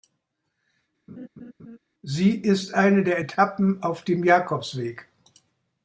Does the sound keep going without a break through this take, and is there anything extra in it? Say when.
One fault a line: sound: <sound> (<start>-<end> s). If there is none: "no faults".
sound: laugh (1.1-1.8 s)